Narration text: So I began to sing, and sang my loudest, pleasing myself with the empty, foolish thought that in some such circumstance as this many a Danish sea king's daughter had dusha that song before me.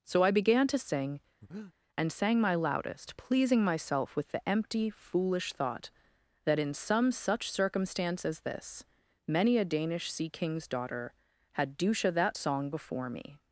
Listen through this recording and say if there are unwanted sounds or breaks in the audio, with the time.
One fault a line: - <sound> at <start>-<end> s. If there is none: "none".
- breath at 1.4-1.7 s